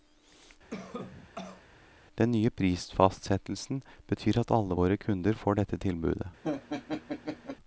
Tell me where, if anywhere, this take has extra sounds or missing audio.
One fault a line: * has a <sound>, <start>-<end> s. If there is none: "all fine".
* has a cough, 0.7-1.6 s
* has a laugh, 6.4-7.6 s